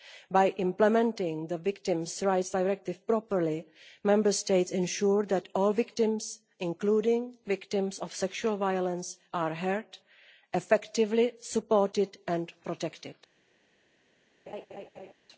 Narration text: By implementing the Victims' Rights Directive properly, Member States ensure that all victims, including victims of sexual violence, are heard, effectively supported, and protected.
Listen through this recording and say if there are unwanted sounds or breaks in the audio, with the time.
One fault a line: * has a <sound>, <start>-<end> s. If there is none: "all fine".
* has a laugh, 14.5-15.1 s